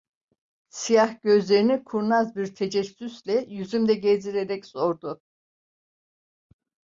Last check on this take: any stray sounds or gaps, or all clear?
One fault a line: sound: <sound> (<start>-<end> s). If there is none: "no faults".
no faults